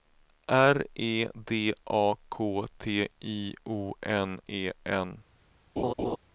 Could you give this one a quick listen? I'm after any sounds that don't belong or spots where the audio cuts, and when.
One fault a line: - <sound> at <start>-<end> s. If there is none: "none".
- laugh at 5.8-6.2 s